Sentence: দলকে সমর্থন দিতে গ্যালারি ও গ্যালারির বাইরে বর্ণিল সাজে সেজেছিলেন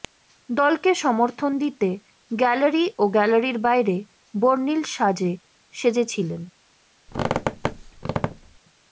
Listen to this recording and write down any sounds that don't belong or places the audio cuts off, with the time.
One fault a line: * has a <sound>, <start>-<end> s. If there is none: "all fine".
* has a squeak, 7.1-8.6 s